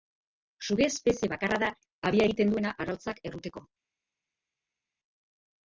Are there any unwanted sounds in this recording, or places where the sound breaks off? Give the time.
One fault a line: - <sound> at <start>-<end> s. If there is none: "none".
none